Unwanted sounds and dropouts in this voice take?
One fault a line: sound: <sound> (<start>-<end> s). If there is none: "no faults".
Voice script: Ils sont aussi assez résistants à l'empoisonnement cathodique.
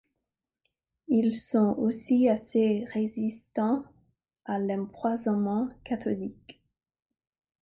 no faults